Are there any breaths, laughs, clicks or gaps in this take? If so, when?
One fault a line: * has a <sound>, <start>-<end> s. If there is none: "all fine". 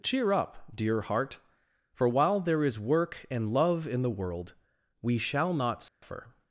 * has a dropout, 5.9-6.0 s